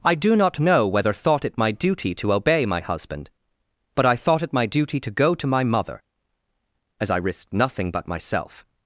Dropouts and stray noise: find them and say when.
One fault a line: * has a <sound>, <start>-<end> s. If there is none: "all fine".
all fine